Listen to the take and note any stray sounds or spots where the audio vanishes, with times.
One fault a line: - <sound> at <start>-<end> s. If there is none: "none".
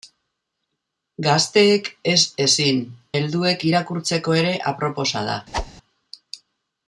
- whoosh at 5.5-5.7 s